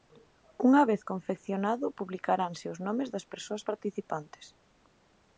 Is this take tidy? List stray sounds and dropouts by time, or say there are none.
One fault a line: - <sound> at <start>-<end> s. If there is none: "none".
none